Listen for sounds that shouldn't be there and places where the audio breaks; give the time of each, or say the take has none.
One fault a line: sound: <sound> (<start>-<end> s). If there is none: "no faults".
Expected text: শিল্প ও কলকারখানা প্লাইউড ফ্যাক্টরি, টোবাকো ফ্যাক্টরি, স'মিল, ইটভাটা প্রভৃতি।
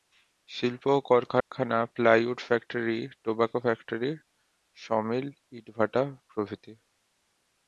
sound: dropout (1.4-1.5 s)